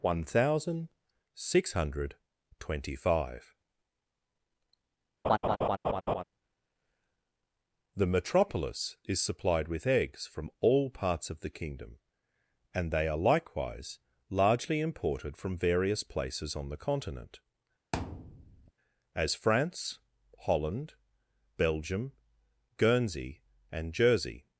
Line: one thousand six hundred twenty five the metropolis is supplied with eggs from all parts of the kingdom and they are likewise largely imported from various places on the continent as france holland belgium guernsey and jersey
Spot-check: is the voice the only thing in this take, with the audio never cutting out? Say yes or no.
no